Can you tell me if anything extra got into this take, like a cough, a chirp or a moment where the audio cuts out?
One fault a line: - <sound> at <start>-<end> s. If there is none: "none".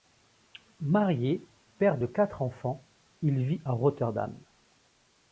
none